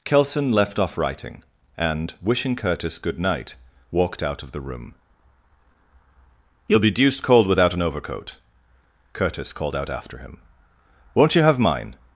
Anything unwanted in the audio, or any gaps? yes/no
no